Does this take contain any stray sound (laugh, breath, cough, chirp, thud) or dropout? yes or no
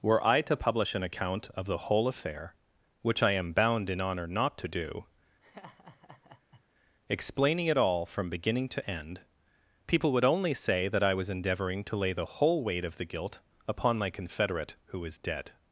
yes